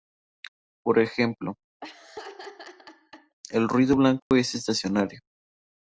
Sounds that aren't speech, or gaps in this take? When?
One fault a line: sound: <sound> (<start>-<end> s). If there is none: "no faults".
sound: laugh (1.8-3.4 s)
sound: dropout (4.2-4.3 s)